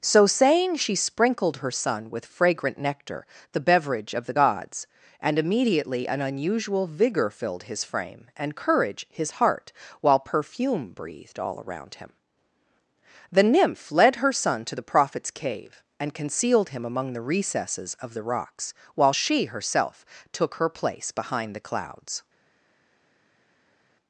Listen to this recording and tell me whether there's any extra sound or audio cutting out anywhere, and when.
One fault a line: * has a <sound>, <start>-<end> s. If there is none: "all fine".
all fine